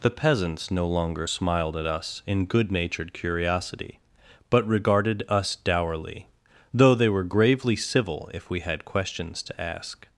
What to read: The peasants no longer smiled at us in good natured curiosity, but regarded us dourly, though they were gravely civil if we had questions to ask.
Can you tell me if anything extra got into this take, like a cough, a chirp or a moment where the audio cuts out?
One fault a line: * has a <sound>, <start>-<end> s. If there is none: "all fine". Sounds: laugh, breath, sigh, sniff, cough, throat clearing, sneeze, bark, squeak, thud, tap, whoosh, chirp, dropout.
all fine